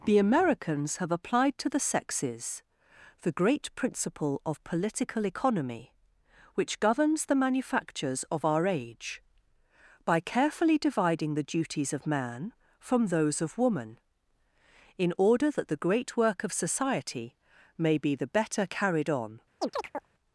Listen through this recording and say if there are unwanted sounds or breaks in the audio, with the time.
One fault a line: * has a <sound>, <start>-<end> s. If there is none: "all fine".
* has a chirp, 19.6-20.1 s